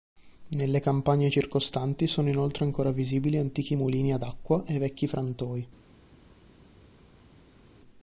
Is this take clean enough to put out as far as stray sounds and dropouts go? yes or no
yes